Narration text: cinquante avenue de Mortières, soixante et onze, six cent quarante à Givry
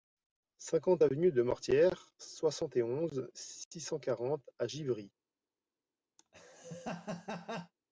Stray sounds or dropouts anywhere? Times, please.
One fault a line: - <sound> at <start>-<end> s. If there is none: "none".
- laugh at 6.2-7.7 s